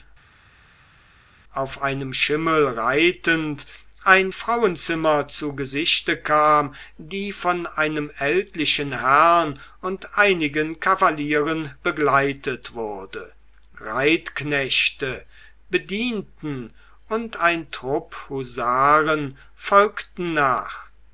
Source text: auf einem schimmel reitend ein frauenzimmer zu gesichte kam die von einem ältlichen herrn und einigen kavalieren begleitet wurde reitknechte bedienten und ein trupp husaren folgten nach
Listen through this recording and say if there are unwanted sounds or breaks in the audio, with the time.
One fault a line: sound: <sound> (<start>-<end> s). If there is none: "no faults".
no faults